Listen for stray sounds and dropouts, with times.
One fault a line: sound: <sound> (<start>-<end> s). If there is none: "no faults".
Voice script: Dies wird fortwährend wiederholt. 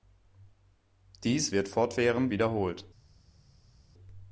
no faults